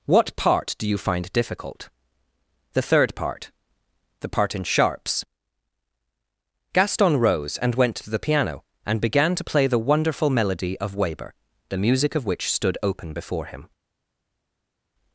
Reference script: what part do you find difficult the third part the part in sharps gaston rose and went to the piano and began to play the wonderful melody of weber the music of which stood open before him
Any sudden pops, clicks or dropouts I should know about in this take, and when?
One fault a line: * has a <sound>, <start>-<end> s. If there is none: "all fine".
all fine